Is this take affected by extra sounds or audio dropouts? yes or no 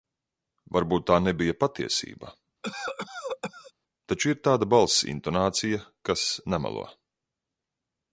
yes